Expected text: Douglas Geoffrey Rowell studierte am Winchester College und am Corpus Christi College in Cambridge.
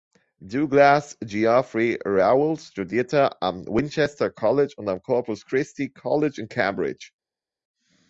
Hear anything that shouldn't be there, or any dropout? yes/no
no